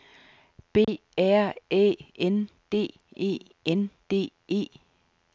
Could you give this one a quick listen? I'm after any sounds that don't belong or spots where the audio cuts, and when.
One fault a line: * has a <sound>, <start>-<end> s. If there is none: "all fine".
* has a dropout, 0.8-0.9 s